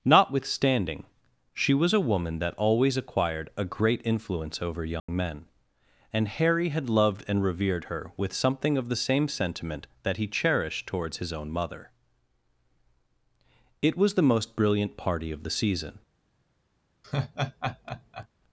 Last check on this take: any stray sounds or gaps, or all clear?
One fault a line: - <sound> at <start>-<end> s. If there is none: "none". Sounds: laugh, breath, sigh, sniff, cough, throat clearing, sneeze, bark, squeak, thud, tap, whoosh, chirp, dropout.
- dropout at 5.0-5.1 s
- laugh at 17.0-18.3 s